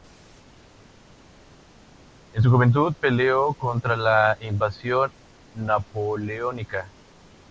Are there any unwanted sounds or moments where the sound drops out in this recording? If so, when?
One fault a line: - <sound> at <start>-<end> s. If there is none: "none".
none